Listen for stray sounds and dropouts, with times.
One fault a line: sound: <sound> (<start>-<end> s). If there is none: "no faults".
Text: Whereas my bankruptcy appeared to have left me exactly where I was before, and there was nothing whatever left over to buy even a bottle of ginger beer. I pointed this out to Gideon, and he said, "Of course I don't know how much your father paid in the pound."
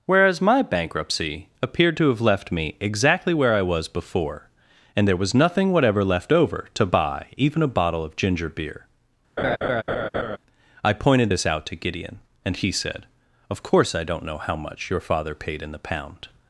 sound: laugh (9.4-10.4 s)